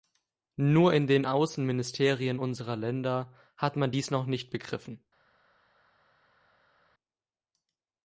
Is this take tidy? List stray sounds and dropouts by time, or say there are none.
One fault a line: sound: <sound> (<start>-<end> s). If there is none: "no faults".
no faults